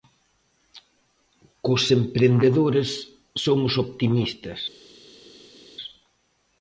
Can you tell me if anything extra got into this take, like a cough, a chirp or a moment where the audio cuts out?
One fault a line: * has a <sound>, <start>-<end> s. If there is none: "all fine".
all fine